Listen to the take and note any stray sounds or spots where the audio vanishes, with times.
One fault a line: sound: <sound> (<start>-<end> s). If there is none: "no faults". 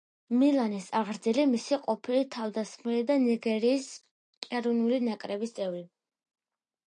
no faults